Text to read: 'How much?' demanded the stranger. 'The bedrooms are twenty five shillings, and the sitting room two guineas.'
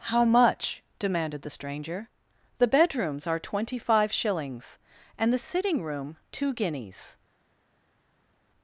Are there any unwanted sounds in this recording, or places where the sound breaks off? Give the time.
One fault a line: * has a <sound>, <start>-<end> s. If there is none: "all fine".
all fine